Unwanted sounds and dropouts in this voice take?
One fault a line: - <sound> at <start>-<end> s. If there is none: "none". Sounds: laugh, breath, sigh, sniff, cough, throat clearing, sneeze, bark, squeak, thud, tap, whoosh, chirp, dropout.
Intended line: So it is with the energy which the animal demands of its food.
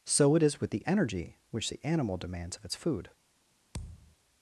- thud at 3.7-4.2 s